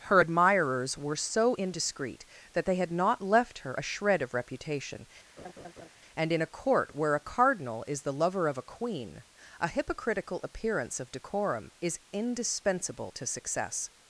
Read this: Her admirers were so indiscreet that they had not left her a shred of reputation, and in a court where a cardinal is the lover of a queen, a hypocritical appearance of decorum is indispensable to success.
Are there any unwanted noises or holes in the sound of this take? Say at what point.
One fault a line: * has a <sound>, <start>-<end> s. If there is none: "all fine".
* has a laugh, 5.4-5.9 s